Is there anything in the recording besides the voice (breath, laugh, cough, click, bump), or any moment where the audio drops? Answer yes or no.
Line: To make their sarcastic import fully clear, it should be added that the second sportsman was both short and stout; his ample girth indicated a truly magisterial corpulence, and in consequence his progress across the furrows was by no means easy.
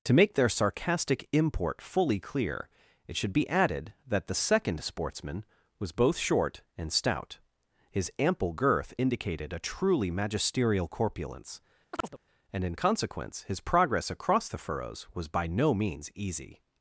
yes